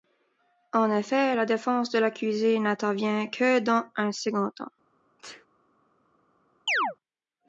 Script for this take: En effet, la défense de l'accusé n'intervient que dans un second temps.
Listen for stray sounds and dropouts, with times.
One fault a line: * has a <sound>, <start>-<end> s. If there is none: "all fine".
* has a sneeze, 5.2-5.5 s
* has a chirp, 6.7-7.0 s